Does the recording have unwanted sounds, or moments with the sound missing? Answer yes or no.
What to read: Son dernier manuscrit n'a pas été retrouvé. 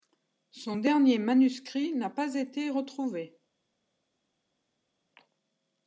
no